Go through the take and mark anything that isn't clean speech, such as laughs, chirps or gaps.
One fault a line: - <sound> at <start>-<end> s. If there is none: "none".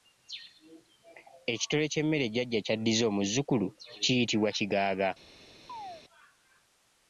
- chirp at 5.7-6.0 s